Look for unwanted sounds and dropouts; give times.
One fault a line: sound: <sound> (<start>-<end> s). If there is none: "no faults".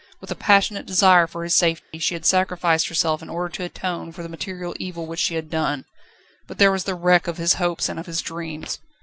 sound: dropout (1.8-1.9 s)